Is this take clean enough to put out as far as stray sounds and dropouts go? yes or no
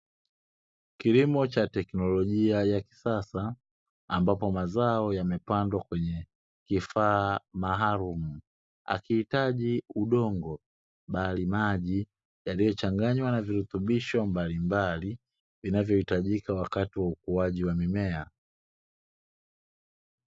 yes